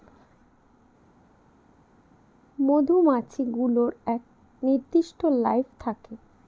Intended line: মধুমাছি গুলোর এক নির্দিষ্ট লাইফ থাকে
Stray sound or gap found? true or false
false